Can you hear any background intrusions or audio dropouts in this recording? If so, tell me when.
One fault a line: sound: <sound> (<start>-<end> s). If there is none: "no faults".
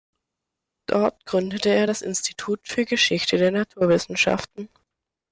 no faults